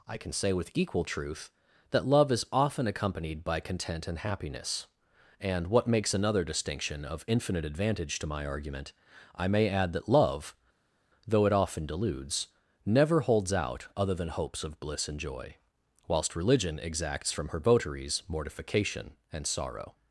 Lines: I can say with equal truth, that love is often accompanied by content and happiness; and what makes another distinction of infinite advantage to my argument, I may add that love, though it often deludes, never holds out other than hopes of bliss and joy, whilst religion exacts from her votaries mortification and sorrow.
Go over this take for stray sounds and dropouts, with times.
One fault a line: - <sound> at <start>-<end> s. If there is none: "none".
none